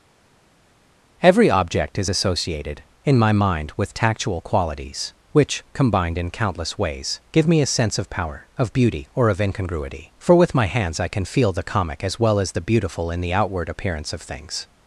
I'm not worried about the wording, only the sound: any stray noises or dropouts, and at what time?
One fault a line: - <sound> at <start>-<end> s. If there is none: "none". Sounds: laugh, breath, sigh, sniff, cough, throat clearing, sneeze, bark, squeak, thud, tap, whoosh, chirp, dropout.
none